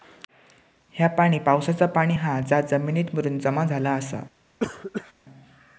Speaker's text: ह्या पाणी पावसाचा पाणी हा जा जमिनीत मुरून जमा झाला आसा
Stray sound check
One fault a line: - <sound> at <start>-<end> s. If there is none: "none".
- cough at 4.6-5.1 s